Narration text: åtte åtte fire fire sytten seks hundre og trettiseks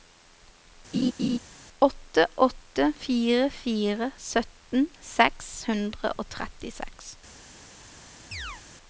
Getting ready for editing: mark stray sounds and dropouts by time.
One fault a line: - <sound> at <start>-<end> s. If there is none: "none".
- laugh at 0.9-1.4 s
- chirp at 8.3-8.6 s